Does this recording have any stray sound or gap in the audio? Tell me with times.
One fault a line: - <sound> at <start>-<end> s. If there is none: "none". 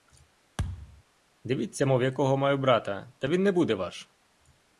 - thud at 0.6-1.0 s